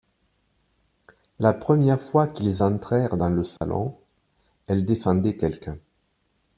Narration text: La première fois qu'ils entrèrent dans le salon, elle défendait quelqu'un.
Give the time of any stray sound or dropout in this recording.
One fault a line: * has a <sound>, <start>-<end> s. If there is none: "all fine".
* has a dropout, 3.6-3.6 s